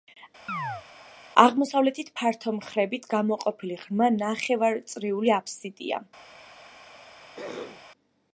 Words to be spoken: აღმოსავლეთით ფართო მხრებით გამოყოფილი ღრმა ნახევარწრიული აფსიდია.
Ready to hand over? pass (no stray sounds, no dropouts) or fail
fail